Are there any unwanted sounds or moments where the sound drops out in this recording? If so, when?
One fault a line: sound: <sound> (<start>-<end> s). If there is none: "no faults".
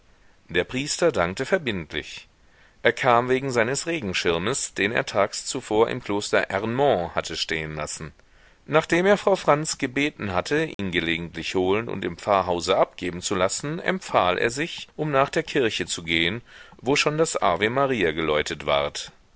sound: dropout (10.7-10.8 s)